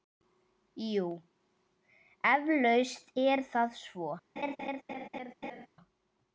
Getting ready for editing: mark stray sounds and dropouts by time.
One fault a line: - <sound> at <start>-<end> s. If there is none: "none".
- laugh at 4.4-5.7 s